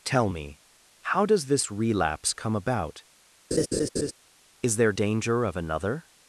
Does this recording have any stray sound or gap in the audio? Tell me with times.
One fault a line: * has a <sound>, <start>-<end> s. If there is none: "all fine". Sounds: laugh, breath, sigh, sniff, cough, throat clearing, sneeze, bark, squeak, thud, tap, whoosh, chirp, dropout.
* has a laugh, 3.5-4.1 s